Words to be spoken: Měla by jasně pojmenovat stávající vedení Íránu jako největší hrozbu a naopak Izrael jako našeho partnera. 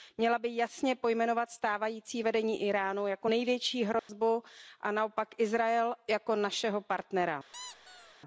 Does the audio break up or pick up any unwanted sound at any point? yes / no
yes